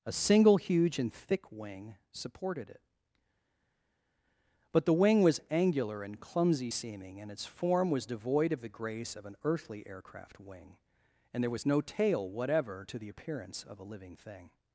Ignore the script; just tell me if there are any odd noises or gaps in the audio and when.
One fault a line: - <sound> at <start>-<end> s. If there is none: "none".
none